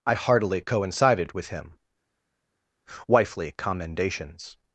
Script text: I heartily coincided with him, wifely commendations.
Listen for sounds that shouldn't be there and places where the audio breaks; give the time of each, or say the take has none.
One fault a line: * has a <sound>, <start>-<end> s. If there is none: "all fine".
all fine